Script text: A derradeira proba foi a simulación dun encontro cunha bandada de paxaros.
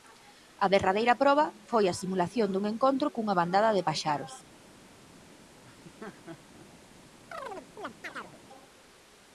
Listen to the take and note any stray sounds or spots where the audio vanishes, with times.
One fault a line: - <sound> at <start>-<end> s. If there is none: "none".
- laugh at 5.6-6.7 s
- chirp at 7.3-8.4 s